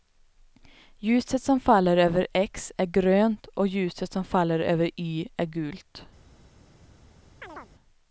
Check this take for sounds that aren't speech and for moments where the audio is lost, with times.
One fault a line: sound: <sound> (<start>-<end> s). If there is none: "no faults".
sound: chirp (7.4-7.7 s)